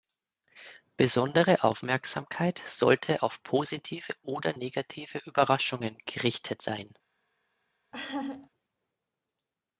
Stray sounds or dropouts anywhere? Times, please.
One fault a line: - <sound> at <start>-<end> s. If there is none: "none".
- laugh at 7.9-8.5 s